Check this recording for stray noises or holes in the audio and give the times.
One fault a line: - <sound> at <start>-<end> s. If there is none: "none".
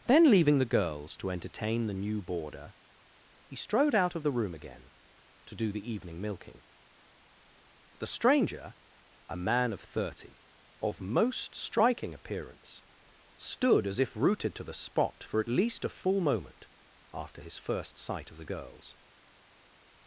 none